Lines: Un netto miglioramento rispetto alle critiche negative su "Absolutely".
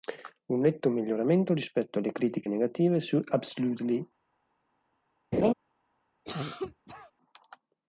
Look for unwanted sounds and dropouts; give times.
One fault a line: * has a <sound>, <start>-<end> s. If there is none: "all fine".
* has a laugh, 5.3-5.5 s
* has a cough, 6.3-7.1 s